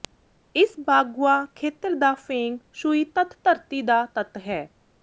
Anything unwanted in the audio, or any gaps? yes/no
no